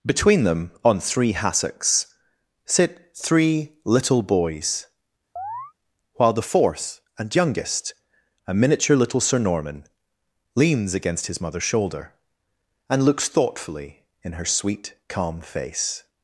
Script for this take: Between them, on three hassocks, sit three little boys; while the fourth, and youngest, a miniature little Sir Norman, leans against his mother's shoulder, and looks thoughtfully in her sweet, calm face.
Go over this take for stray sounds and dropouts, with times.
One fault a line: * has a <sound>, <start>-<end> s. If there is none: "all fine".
* has a chirp, 5.4-5.7 s